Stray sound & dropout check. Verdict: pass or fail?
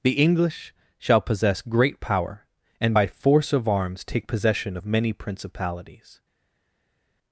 pass